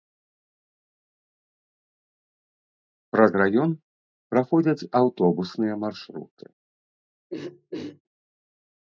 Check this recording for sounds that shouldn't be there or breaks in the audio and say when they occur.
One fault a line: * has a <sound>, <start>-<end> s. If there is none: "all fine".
* has a throat clearing, 7.3-8.0 s